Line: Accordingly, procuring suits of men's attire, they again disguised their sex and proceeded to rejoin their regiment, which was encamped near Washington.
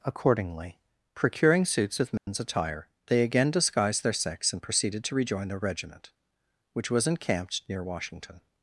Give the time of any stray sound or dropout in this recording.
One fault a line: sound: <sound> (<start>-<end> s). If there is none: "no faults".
sound: dropout (2.2-2.3 s)